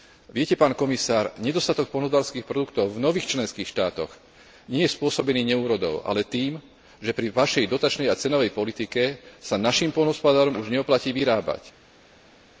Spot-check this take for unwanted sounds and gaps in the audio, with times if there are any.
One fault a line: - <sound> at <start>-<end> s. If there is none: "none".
none